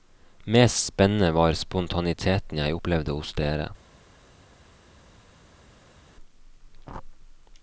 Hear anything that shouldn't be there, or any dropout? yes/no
no